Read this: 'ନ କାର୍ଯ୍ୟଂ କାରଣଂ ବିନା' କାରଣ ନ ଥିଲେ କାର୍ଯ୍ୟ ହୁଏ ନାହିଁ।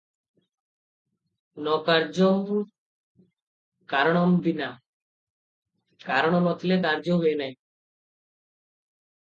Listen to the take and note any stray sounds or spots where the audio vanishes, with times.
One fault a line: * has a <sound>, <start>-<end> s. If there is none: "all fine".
all fine